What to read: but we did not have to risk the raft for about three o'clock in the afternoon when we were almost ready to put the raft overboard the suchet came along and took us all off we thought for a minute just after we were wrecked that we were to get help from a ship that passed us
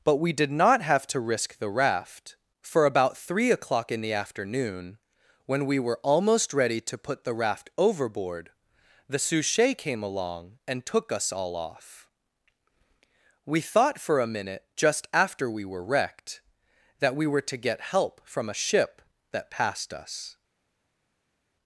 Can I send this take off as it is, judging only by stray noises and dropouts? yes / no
yes